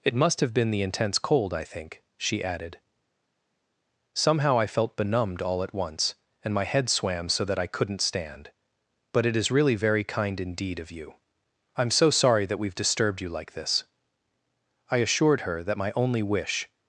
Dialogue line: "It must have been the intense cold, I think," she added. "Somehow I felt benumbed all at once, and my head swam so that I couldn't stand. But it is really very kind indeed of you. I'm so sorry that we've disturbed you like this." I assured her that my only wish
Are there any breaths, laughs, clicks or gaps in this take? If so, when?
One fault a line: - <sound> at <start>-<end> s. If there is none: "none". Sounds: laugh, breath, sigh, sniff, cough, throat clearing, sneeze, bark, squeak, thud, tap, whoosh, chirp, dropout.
none